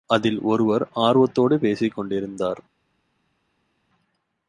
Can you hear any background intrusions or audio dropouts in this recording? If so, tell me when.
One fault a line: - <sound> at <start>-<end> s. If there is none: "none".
none